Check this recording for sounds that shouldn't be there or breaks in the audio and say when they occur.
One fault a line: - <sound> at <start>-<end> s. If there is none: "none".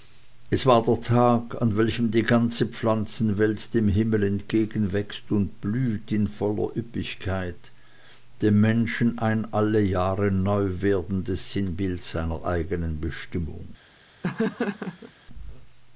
- laugh at 14.2-15.1 s